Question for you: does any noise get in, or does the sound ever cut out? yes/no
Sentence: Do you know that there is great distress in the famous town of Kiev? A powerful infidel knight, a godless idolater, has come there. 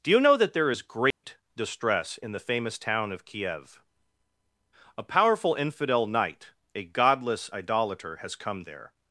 yes